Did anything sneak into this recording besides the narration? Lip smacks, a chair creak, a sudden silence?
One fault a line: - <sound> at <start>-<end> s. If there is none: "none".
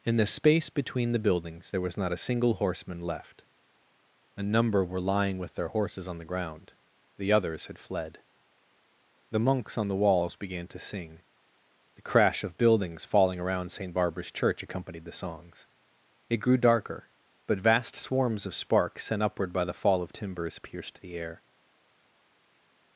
none